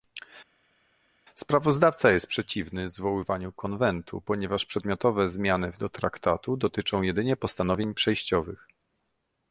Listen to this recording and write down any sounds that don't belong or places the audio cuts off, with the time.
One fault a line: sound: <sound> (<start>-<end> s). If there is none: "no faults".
no faults